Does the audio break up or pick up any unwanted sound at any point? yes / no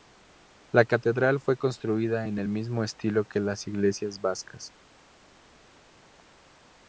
no